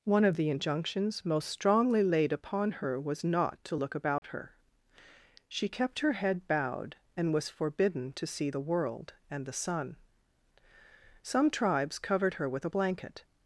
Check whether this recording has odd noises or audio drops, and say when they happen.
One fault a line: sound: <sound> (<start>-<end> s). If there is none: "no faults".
sound: dropout (4.2-4.2 s)